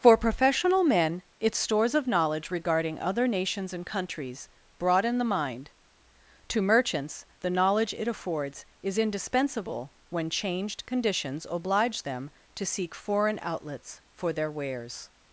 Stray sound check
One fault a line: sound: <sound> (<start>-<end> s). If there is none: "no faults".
no faults